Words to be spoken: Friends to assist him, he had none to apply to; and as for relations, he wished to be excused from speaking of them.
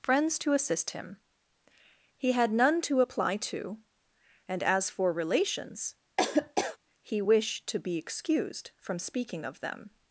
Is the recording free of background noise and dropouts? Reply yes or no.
no